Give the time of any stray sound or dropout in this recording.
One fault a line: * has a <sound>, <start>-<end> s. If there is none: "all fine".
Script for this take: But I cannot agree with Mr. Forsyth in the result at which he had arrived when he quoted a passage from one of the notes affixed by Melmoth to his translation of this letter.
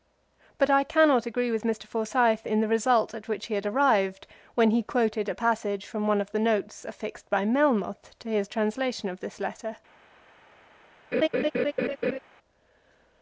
* has a laugh, 11.1-12.2 s